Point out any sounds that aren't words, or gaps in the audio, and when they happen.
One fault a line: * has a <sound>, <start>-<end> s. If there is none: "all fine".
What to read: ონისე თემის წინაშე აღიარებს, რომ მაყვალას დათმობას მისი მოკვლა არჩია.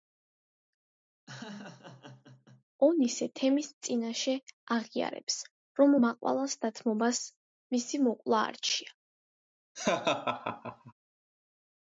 * has a laugh, 1.3-2.6 s
* has a laugh, 9.7-10.9 s